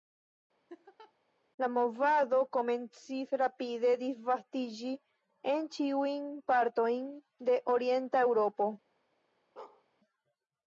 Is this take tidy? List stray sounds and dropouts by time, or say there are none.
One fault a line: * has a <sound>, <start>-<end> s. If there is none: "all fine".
* has a laugh, 0.7-1.1 s
* has a bark, 9.6-9.8 s